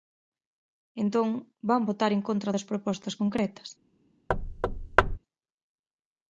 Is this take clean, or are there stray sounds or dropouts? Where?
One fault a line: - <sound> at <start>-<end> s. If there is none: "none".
- thud at 4.3-5.2 s